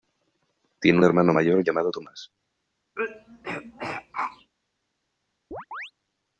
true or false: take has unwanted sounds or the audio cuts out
true